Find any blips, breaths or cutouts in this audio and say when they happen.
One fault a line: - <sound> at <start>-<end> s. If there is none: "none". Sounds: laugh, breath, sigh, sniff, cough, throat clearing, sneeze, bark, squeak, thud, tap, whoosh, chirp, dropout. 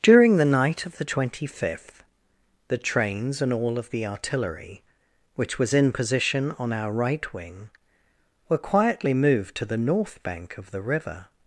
none